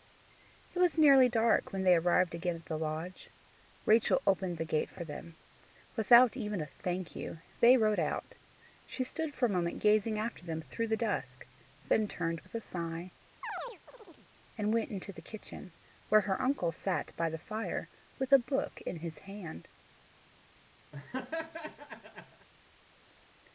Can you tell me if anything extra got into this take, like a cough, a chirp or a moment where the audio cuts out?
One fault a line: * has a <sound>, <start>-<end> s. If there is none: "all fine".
* has a chirp, 13.4-14.3 s
* has a laugh, 20.9-22.5 s